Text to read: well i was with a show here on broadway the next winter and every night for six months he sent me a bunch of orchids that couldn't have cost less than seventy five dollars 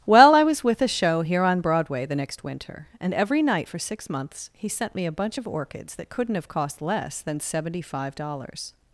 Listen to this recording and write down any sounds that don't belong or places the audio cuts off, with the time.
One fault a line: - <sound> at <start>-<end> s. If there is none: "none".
none